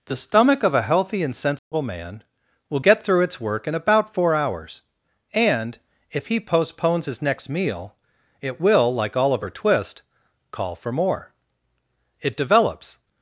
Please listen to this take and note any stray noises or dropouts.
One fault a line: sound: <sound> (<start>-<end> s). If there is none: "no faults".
sound: dropout (1.6-1.7 s)